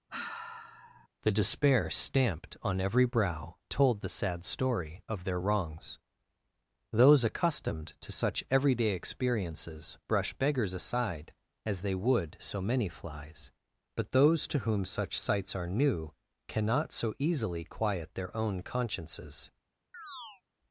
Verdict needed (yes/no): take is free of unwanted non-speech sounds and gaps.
no